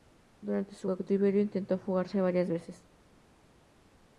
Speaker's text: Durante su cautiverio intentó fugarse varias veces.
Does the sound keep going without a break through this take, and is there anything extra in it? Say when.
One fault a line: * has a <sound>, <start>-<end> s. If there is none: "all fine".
all fine